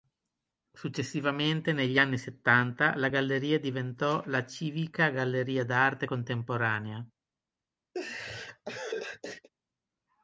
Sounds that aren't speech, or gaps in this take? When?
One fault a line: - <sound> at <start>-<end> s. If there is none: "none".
- laugh at 7.9-9.5 s